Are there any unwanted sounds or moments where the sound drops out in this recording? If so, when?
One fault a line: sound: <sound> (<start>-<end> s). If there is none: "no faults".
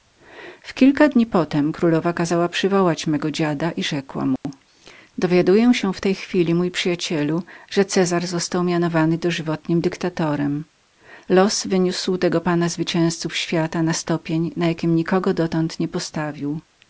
sound: dropout (4.4-4.4 s)